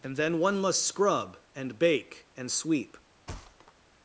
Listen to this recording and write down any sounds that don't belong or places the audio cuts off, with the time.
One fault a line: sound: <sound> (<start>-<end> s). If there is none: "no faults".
sound: thud (3.3-3.7 s)